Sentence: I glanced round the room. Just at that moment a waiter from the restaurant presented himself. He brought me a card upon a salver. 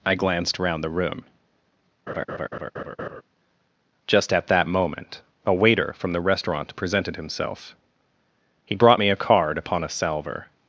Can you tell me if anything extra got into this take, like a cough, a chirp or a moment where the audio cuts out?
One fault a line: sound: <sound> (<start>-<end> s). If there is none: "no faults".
sound: laugh (2.1-3.2 s)